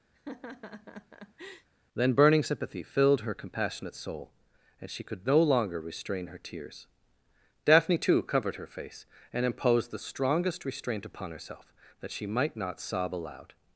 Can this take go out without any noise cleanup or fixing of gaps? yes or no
no